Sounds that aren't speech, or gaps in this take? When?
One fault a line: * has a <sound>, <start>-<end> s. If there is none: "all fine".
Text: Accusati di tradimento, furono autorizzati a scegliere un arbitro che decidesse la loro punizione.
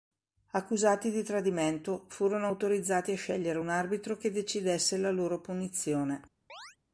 * has a chirp, 6.5-6.8 s